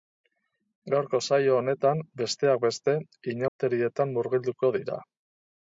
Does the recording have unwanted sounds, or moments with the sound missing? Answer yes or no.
yes